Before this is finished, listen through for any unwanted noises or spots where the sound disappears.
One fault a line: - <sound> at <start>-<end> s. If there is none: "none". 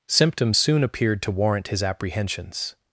none